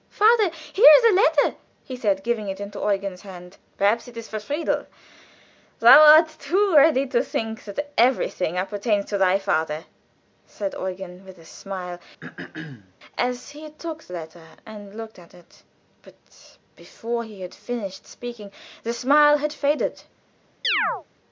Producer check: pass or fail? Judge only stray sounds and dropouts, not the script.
fail